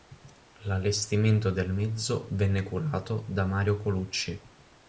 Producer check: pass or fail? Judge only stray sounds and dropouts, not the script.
pass